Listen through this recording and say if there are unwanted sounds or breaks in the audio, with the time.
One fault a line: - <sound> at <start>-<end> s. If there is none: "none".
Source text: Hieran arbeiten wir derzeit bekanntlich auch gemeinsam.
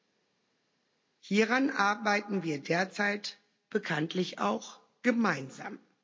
none